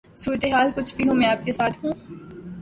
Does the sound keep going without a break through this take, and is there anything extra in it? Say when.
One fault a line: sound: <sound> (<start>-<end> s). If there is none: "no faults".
no faults